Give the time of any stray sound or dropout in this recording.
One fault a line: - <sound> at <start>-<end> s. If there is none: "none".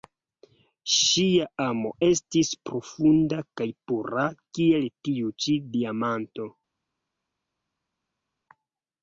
none